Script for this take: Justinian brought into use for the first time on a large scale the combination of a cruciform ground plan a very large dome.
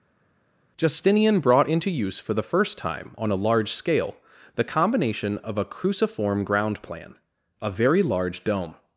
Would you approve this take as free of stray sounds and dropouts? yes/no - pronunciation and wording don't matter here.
yes